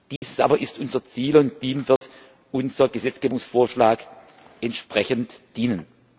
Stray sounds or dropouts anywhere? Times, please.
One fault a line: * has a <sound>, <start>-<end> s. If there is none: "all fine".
* has a dropout, 0.2-0.2 s
* has a dropout, 2.0-2.0 s